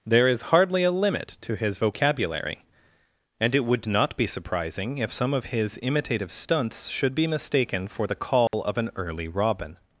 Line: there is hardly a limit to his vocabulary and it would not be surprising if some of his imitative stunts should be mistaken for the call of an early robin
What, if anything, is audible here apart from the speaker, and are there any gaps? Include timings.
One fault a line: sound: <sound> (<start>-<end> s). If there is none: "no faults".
sound: dropout (8.5-8.5 s)